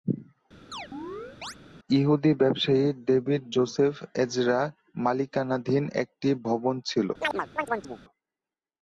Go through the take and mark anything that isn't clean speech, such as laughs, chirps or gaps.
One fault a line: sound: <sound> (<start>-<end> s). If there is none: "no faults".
sound: chirp (0.7-1.6 s)
sound: chirp (7.2-8.0 s)